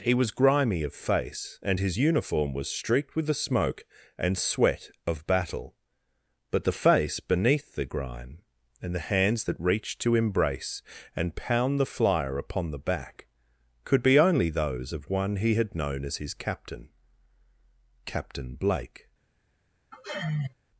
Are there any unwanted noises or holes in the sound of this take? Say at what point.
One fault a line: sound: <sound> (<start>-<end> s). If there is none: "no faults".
sound: sigh (19.9-20.5 s)